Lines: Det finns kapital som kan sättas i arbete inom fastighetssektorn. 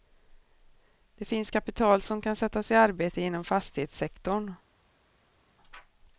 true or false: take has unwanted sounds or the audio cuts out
false